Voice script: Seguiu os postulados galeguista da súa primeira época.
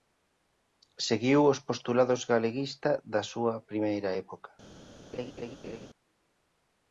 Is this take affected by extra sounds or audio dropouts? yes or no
yes